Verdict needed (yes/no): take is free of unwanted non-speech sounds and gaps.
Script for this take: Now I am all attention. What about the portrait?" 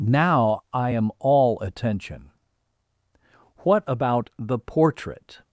yes